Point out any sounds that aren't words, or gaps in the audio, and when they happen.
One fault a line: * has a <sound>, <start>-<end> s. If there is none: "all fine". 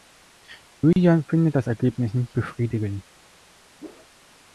* has a dropout, 0.9-1.0 s
* has a whoosh, 3.8-4.1 s